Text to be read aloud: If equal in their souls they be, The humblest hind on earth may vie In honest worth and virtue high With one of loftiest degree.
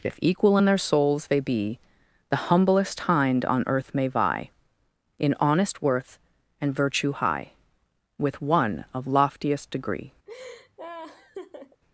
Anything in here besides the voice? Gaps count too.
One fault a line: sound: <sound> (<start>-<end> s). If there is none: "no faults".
sound: laugh (10.3-11.8 s)